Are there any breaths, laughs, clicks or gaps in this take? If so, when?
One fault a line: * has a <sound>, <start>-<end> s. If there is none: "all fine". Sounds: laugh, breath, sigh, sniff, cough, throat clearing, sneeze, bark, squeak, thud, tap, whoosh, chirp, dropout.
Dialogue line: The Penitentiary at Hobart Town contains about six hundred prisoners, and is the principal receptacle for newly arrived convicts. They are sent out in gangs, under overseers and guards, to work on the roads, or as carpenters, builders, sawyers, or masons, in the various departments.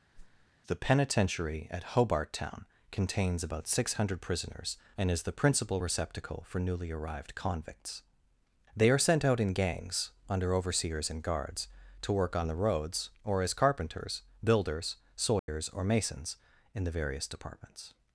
* has a whoosh, 0.1-0.5 s
* has a dropout, 15.4-15.5 s